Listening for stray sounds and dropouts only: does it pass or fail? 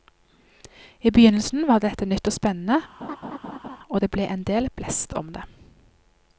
fail